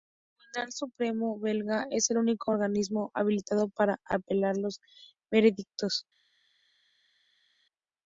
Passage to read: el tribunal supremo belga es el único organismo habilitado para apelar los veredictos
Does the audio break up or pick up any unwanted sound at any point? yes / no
no